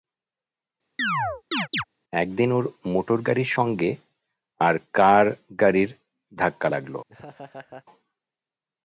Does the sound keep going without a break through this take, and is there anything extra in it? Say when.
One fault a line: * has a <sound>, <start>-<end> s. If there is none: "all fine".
* has a chirp, 1.0-1.8 s
* has a laugh, 7.1-7.9 s